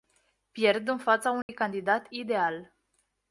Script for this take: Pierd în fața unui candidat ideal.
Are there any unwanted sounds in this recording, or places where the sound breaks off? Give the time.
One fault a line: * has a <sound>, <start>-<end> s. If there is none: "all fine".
* has a dropout, 1.4-1.5 s